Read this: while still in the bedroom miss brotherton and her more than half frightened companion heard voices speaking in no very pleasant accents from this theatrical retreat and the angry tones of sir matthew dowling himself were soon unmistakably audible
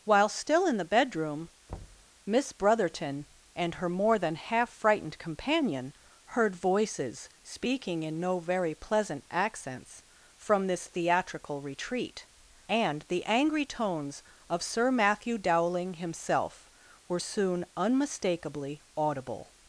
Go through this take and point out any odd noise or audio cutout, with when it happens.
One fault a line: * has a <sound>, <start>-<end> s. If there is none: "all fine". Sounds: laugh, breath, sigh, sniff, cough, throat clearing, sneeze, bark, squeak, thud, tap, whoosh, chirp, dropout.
* has a thud, 1.7-2.1 s